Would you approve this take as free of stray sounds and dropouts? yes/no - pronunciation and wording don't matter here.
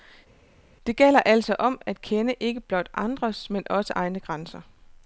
yes